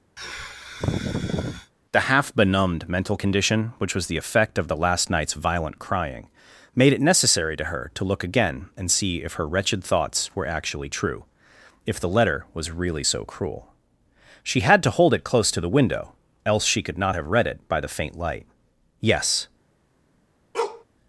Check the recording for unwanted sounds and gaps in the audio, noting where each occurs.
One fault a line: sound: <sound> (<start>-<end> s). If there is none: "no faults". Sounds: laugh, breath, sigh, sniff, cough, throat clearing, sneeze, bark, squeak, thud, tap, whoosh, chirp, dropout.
sound: sigh (0.2-1.7 s)
sound: bark (20.5-20.8 s)